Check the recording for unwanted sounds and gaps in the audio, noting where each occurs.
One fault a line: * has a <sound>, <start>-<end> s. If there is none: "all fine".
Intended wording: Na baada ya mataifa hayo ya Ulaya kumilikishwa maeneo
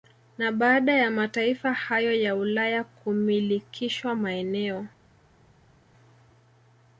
all fine